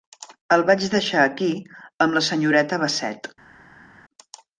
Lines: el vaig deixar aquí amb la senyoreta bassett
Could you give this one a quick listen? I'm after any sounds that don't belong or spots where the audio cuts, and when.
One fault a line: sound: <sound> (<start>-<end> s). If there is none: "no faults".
no faults